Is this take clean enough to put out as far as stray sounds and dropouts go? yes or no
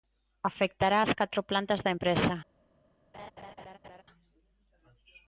no